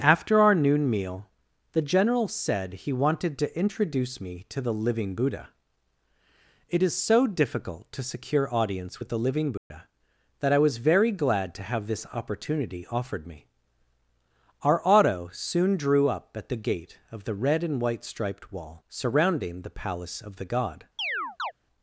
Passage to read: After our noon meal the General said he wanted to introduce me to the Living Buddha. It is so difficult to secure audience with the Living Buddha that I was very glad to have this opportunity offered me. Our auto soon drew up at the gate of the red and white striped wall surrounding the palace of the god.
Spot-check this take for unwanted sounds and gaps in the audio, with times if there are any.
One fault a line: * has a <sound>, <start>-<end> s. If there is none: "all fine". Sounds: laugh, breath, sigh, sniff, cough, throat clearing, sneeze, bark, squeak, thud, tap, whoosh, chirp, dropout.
* has a dropout, 9.6-9.7 s
* has a chirp, 21.0-21.5 s